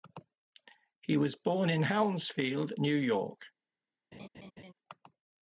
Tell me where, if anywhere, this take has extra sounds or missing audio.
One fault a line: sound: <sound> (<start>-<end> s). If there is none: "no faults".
sound: laugh (4.1-4.7 s)